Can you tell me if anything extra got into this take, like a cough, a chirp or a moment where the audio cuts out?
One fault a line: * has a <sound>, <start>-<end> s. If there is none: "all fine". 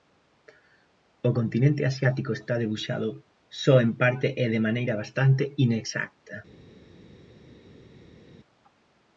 all fine